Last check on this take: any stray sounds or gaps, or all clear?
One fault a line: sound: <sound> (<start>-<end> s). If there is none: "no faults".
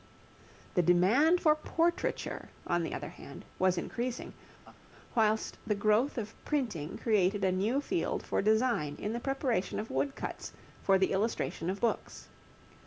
sound: laugh (4.6-4.8 s)